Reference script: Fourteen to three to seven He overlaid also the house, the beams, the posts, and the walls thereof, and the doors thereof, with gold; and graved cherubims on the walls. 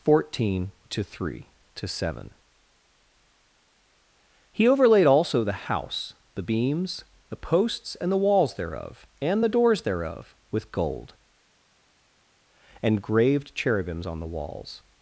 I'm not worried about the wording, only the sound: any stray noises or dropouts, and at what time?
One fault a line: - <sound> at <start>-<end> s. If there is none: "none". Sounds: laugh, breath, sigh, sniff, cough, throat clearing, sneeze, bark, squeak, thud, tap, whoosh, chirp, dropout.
none